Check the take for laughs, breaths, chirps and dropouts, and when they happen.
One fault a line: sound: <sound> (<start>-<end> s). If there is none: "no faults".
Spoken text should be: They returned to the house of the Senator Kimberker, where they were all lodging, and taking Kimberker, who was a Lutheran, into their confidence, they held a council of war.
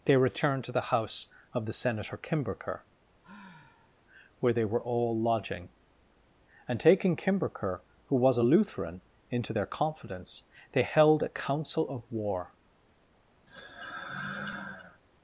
sound: sigh (3.2-4.0 s)
sound: sigh (13.5-15.0 s)